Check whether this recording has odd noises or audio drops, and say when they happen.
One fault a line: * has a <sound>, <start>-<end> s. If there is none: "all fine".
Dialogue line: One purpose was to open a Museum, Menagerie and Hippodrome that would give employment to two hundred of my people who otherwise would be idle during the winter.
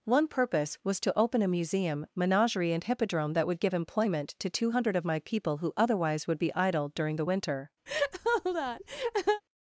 * has a laugh, 7.9-9.4 s